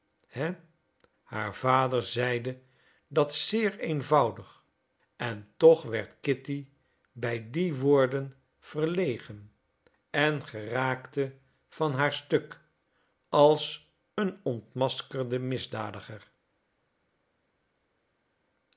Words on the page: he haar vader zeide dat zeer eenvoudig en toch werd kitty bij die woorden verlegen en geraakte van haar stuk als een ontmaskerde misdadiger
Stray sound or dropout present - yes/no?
no